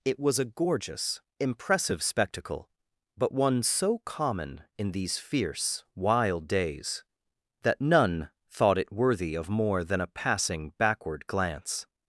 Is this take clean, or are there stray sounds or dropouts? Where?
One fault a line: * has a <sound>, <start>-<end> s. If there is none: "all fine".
all fine